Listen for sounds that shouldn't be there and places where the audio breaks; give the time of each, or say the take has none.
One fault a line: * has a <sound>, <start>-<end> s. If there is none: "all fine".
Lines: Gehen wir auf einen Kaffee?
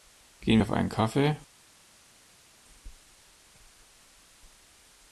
all fine